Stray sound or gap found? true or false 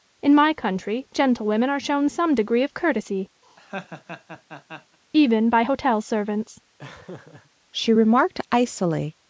true